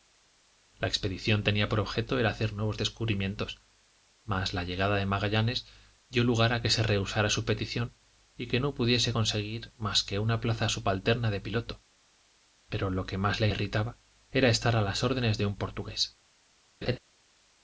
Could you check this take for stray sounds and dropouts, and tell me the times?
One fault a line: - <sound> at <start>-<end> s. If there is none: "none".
- laugh at 16.8-17.0 s